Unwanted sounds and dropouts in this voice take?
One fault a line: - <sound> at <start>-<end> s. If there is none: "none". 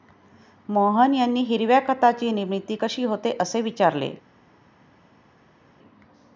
none